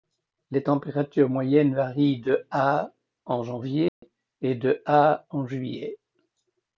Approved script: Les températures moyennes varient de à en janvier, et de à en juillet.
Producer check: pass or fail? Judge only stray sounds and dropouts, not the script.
fail